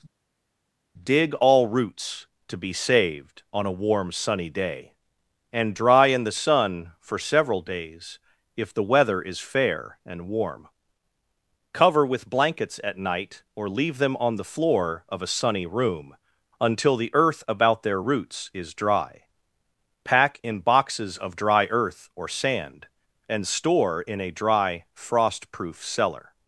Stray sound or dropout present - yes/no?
no